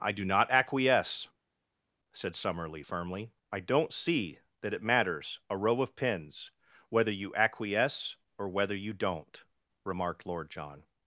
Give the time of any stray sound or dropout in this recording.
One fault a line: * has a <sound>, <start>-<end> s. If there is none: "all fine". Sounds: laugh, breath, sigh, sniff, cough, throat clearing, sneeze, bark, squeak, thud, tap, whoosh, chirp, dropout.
all fine